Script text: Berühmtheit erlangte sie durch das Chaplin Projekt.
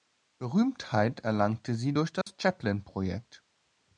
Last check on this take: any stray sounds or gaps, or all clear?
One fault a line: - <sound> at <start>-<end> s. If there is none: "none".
- dropout at 2.2-2.3 s